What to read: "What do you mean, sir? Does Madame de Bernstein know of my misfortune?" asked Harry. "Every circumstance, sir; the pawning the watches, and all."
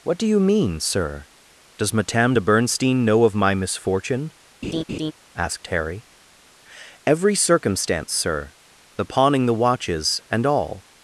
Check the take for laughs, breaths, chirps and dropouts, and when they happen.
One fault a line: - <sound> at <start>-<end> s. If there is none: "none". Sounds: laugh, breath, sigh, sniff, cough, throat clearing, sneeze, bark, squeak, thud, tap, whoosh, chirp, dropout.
- laugh at 4.6-5.1 s